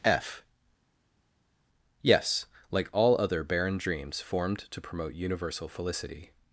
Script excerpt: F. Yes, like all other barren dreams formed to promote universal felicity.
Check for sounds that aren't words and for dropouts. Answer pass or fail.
pass